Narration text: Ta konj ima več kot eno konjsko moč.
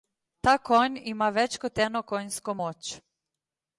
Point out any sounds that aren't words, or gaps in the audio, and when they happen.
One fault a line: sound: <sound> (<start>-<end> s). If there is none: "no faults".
no faults